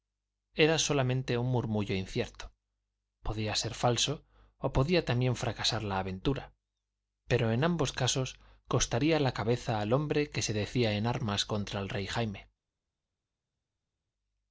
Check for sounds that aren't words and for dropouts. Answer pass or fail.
pass